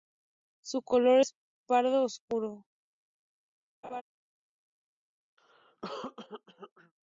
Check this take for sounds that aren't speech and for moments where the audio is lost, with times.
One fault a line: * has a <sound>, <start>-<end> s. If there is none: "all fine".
* has a laugh, 3.8-4.0 s
* has a cough, 5.4-6.9 s